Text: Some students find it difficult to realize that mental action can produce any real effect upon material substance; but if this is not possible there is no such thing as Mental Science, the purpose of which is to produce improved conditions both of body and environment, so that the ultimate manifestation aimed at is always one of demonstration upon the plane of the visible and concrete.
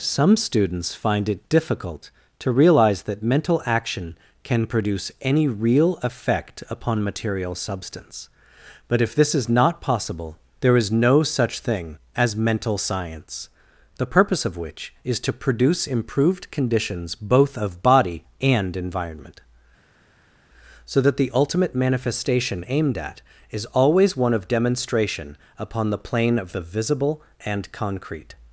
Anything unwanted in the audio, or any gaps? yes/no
no